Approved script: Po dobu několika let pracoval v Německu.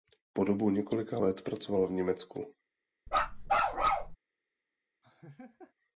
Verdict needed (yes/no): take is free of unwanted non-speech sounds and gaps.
no